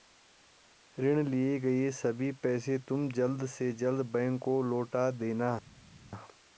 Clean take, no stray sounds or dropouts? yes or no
yes